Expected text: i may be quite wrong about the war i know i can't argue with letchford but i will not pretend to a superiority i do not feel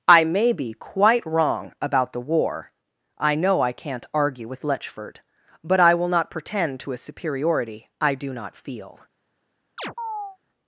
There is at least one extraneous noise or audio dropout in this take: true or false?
true